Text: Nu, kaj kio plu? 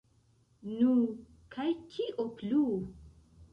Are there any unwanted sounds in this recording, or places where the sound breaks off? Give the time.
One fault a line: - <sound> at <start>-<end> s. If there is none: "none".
none